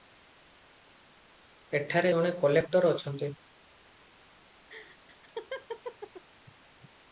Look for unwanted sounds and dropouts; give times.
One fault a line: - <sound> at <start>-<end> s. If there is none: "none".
- laugh at 4.7-6.2 s